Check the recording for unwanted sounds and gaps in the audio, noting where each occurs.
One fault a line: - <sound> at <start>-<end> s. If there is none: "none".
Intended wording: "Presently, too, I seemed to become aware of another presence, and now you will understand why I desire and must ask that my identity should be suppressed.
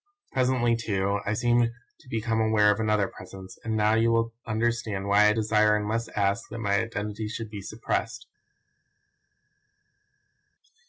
none